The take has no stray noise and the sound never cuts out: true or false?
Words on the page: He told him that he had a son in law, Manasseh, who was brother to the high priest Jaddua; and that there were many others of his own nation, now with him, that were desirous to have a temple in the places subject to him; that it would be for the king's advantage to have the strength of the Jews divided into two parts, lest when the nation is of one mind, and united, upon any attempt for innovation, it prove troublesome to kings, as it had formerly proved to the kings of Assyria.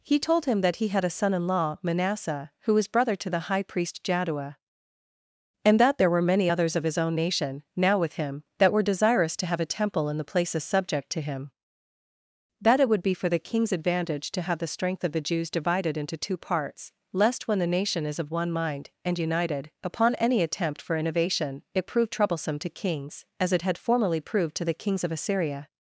true